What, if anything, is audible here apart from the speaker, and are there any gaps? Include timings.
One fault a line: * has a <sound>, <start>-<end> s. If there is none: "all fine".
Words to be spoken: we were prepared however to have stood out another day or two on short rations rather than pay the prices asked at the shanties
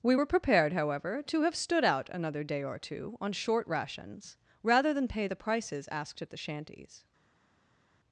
all fine